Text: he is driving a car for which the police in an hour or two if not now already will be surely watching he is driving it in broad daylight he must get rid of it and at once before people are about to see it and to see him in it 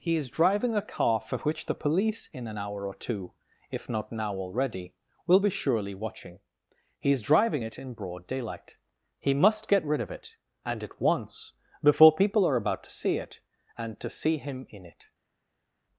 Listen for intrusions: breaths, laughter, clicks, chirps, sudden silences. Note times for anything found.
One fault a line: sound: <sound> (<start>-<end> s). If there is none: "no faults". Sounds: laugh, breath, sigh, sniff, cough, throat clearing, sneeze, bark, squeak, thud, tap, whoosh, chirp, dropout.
no faults